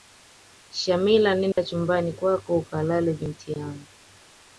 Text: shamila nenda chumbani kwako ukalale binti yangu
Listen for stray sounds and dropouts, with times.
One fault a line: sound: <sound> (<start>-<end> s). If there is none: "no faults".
sound: dropout (1.5-1.6 s)